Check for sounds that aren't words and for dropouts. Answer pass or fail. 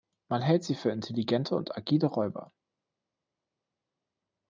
pass